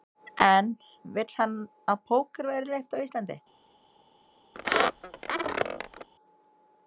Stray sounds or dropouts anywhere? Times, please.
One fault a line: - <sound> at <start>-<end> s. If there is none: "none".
- squeak at 4.5-6.1 s